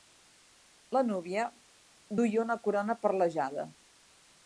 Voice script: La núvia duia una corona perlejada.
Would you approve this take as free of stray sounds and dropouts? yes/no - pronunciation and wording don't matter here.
yes